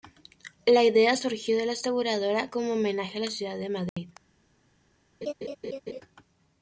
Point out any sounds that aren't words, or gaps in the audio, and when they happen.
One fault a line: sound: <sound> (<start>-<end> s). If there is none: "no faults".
sound: dropout (3.9-4.0 s)
sound: laugh (5.2-6.0 s)